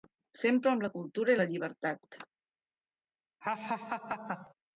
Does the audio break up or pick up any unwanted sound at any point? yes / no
yes